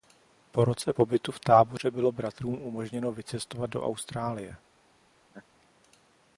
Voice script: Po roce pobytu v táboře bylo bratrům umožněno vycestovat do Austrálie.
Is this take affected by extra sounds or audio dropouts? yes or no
yes